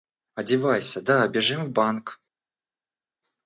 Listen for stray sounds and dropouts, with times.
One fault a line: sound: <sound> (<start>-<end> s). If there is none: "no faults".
no faults